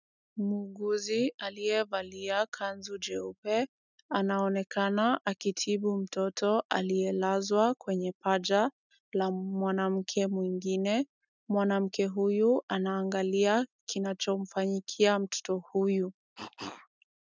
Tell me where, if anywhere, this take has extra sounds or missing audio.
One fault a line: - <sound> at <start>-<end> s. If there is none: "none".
- cough at 16.4-16.9 s